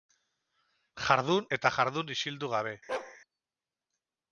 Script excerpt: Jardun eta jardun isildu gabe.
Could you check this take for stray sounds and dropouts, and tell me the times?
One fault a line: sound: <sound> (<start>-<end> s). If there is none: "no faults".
sound: bark (2.9-3.2 s)